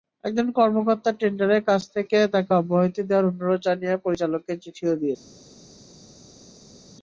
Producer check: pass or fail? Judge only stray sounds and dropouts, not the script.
pass